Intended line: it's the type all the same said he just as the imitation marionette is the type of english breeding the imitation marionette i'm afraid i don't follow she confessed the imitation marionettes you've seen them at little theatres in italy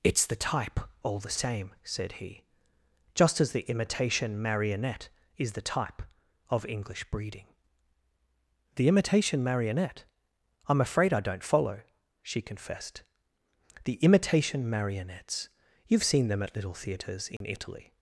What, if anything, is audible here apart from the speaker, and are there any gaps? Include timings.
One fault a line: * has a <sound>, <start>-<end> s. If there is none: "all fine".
* has a dropout, 17.4-17.4 s